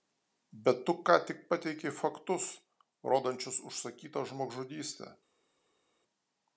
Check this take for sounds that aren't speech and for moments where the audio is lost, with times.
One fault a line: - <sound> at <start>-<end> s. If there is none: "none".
none